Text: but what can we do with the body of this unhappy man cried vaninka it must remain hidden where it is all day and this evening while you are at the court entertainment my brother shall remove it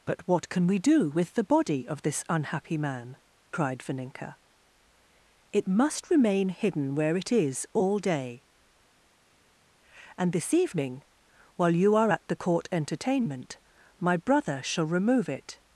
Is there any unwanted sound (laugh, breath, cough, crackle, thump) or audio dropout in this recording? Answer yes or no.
no